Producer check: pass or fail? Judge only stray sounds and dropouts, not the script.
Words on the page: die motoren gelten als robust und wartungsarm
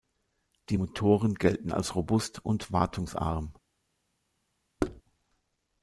fail